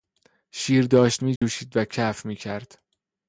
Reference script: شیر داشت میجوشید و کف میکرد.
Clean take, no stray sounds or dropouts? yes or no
no